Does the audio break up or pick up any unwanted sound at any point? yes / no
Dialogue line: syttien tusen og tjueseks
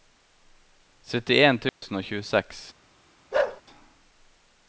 yes